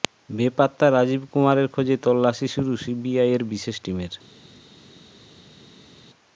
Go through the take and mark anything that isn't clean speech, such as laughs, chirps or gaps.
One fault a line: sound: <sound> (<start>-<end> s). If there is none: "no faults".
no faults